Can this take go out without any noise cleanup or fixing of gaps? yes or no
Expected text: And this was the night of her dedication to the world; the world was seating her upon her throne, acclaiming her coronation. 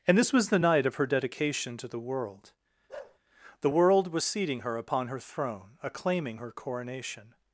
no